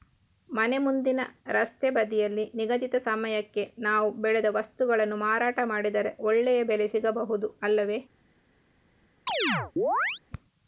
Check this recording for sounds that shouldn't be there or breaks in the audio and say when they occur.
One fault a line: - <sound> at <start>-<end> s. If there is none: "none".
- chirp at 9.3-10.2 s